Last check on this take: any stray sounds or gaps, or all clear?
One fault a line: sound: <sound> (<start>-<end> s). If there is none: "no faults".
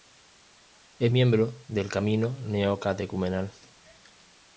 no faults